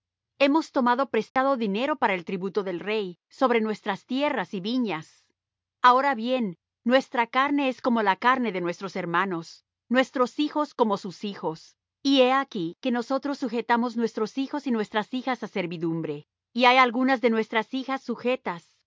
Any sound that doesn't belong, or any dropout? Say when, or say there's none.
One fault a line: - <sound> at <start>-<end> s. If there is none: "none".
- dropout at 1.3-1.4 s